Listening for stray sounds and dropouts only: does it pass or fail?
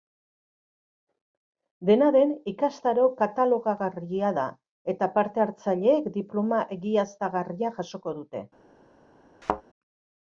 fail